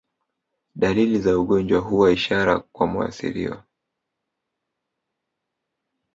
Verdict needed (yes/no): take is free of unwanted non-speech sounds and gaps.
yes